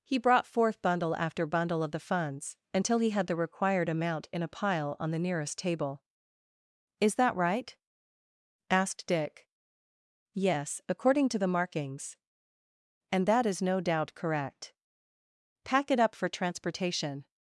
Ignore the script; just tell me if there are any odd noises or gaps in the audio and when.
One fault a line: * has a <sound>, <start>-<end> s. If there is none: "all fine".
all fine